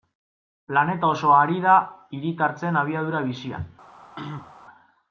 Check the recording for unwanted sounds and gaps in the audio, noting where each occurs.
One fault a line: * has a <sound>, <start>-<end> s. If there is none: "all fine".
* has a throat clearing, 4.2-4.5 s